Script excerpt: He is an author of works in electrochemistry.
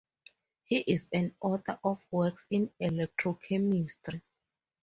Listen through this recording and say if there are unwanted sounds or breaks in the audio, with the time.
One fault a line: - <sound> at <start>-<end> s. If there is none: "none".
none